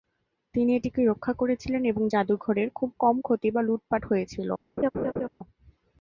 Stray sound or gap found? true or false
true